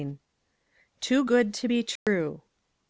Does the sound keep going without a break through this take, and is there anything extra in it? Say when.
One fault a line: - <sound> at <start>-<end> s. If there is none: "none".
- dropout at 2.0-2.1 s